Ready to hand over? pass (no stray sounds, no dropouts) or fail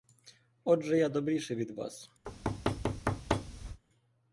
fail